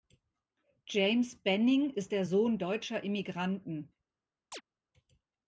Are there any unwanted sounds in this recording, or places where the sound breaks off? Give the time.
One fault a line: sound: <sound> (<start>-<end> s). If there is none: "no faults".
sound: chirp (4.5-4.6 s)